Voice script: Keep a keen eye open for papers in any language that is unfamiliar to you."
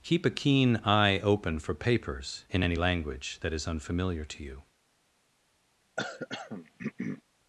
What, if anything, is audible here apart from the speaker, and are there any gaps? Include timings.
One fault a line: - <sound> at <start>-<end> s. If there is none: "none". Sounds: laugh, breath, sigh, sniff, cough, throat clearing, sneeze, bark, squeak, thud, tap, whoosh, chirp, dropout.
- throat clearing at 6.0-7.2 s